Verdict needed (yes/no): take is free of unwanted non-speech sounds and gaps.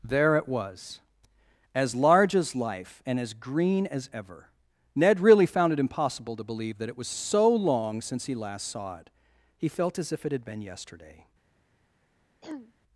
no